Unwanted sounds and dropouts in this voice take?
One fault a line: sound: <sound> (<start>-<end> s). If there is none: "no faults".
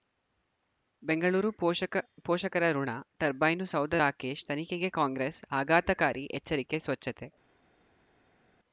no faults